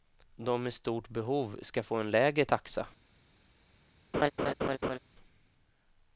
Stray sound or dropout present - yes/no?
yes